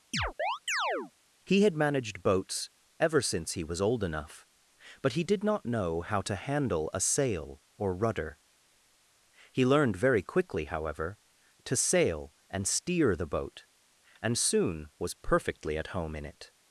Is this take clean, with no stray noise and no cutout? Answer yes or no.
no